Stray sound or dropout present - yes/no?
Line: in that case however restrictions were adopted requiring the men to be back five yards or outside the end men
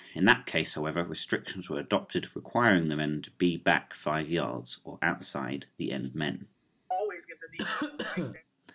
yes